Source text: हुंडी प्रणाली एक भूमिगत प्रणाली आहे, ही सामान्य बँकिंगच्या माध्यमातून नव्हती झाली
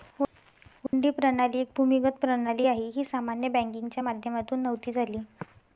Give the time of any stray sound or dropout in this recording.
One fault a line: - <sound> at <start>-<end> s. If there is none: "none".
- dropout at 0.9-0.9 s